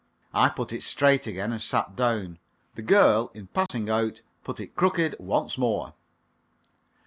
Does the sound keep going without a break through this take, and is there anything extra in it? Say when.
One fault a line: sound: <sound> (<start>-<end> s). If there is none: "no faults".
sound: dropout (3.7-3.7 s)